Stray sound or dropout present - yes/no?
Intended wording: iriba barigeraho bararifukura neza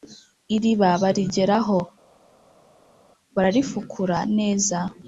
no